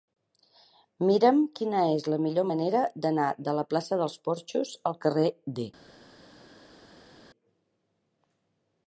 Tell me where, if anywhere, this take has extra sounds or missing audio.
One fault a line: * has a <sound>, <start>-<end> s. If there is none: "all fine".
all fine